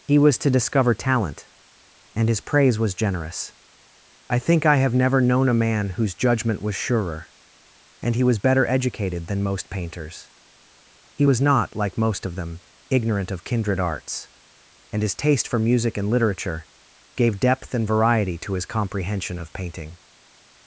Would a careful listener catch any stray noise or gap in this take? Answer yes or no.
no